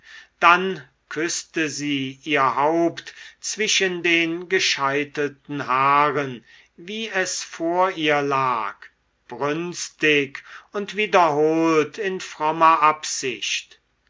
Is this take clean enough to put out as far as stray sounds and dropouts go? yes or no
yes